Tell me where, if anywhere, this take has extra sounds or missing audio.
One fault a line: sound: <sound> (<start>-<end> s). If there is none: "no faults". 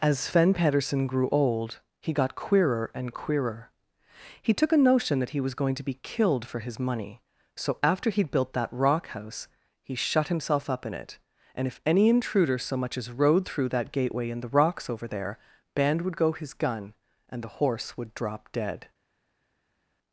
no faults